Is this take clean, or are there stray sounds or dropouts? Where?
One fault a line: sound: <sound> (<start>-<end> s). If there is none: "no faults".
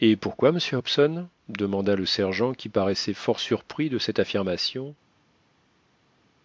no faults